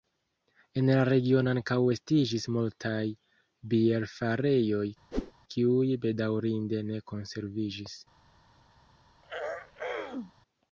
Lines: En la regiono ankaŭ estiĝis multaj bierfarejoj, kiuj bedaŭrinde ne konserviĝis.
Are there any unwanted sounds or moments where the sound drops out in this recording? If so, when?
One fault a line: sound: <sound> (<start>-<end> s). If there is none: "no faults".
sound: whoosh (5.1-5.3 s)
sound: throat clearing (9.2-10.3 s)